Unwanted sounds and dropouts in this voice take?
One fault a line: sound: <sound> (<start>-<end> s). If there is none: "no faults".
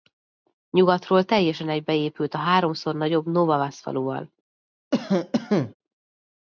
sound: cough (4.9-5.7 s)